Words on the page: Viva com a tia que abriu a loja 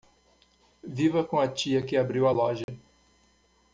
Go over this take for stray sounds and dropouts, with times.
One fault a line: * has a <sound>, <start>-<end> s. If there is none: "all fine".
* has a dropout, 2.6-2.7 s